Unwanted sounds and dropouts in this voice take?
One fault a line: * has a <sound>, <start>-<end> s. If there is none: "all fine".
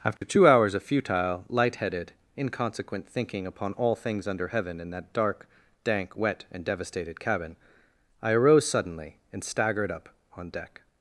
* has a dropout, 0.2-0.2 s